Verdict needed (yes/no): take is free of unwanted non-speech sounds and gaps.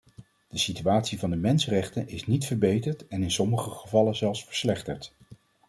yes